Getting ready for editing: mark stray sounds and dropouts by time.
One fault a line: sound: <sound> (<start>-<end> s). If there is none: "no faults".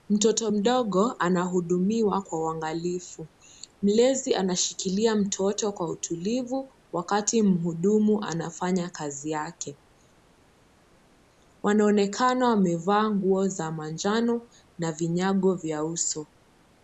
no faults